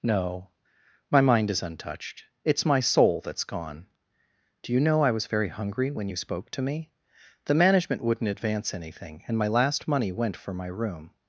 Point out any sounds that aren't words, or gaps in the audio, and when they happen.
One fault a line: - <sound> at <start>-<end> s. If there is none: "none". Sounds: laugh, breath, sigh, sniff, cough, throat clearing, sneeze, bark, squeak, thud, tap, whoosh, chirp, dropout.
none